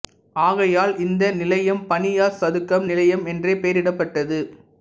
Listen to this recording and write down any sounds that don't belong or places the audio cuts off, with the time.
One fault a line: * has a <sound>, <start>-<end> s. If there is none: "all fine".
all fine